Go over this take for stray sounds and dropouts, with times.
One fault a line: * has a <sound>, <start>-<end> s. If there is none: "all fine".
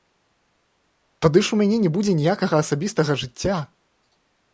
all fine